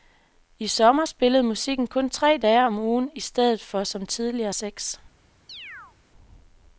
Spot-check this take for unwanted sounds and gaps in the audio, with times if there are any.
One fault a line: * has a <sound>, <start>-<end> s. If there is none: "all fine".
* has a chirp, 5.5-6.0 s